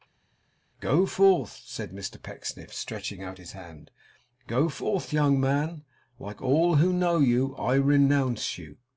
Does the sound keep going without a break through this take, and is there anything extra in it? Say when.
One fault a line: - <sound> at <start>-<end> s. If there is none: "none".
none